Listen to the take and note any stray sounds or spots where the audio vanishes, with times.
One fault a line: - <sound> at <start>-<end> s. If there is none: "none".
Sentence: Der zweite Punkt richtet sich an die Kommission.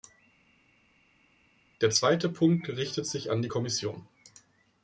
none